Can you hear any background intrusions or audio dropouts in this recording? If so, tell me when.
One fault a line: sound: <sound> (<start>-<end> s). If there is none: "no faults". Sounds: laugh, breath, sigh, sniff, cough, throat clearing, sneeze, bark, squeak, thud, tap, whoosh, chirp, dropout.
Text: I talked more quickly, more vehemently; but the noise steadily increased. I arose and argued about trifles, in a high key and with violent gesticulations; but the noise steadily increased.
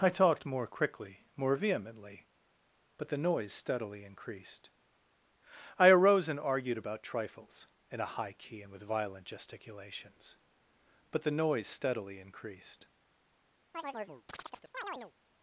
sound: chirp (13.7-15.1 s)